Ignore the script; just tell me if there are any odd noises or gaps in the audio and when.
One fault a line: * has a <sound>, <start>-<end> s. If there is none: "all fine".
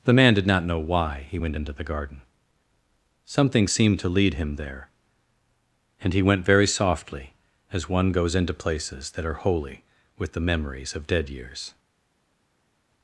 all fine